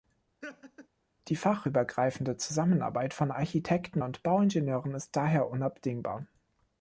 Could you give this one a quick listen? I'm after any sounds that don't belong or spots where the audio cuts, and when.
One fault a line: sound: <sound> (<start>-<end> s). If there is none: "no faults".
sound: laugh (0.4-0.9 s)